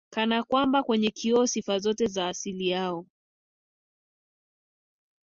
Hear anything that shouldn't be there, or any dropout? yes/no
no